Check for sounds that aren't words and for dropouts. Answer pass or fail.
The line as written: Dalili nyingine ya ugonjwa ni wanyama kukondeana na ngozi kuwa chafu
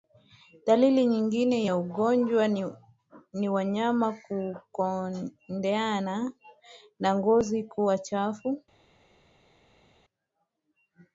pass